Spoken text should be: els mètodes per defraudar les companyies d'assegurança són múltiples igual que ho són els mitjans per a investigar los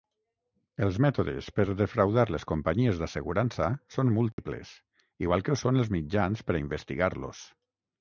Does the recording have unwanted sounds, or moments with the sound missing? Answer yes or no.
yes